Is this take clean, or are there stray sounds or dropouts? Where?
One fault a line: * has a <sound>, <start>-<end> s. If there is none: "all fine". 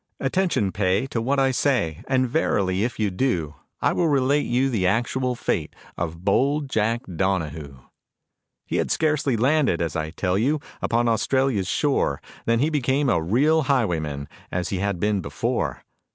all fine